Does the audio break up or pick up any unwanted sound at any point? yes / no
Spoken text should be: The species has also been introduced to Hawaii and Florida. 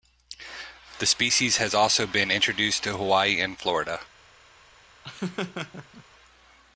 yes